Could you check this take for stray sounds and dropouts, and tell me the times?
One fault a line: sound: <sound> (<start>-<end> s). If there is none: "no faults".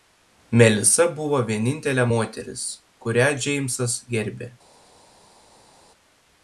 no faults